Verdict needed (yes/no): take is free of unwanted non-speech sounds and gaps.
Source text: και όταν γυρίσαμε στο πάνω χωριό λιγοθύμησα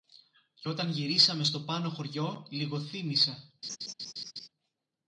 no